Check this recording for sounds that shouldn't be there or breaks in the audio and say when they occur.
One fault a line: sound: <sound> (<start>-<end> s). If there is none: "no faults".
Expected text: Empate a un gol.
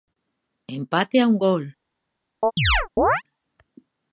sound: chirp (2.4-3.2 s)